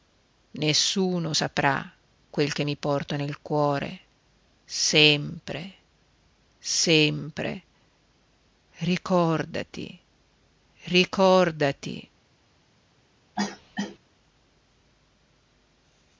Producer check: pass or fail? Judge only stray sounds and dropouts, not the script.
fail